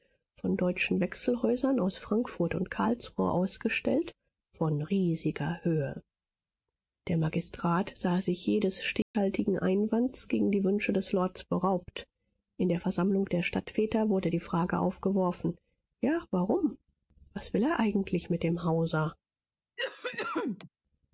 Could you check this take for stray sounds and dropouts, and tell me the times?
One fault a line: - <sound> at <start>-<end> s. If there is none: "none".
- dropout at 9.0-9.1 s
- cough at 19.8-20.7 s